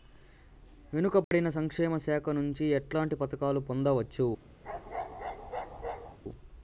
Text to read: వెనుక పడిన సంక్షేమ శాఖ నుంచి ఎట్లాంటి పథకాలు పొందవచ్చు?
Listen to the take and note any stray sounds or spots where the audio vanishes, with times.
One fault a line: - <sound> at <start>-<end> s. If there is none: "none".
- dropout at 1.2-1.3 s
- bark at 4.6-6.2 s